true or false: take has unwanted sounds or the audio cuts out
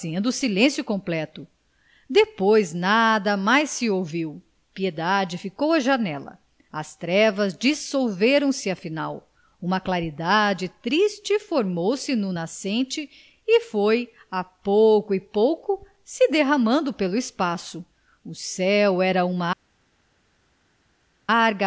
false